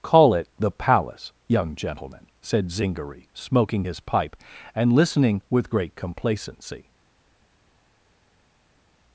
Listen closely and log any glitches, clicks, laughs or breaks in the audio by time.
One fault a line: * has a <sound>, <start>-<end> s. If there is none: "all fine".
all fine